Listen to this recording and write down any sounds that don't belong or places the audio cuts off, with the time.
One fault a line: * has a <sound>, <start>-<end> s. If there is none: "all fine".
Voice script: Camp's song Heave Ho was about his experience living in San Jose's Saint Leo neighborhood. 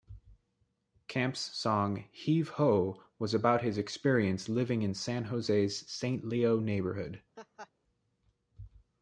* has a laugh, 7.4-7.7 s